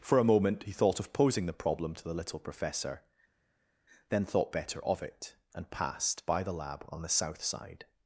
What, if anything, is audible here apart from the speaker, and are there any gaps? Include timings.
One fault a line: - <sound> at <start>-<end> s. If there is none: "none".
none